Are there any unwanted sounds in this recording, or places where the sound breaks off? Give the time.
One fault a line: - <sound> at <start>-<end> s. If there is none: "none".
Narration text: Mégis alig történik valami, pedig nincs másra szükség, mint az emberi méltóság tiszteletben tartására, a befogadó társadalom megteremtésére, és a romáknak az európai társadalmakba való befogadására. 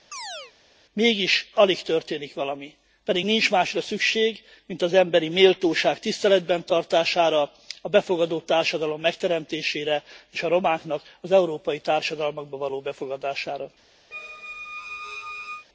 - chirp at 0.1-0.5 s
- squeak at 14.1-15.7 s